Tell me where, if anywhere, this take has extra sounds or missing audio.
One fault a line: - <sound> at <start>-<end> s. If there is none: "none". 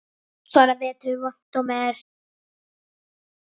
none